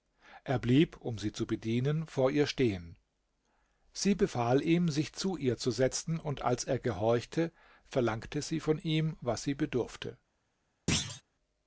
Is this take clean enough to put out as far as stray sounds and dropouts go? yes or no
no